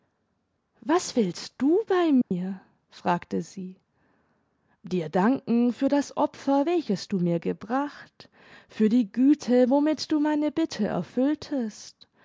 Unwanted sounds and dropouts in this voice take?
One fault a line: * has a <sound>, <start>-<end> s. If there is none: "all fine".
* has a dropout, 2.2-2.3 s